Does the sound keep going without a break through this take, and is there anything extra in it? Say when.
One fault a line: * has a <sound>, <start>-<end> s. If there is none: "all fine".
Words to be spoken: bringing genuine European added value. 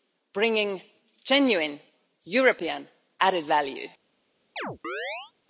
* has a chirp, 4.6-5.3 s